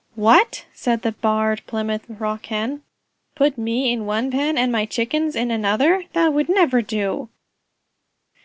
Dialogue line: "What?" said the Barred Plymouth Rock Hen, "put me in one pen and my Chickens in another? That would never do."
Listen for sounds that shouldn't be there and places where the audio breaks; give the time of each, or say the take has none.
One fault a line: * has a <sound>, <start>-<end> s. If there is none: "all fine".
all fine